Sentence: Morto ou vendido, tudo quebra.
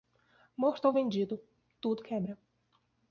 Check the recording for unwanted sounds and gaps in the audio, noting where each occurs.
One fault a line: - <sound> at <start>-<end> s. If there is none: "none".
none